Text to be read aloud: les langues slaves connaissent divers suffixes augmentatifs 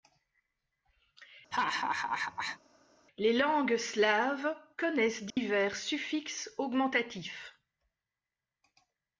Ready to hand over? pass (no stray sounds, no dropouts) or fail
fail